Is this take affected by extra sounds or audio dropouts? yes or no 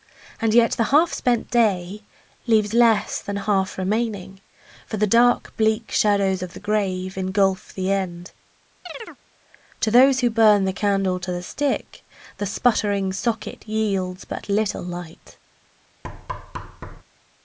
yes